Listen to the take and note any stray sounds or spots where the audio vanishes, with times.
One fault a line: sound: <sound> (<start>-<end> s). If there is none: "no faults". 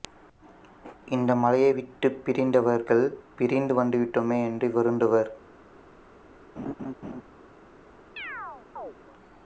sound: laugh (6.6-7.2 s)
sound: chirp (8.2-8.9 s)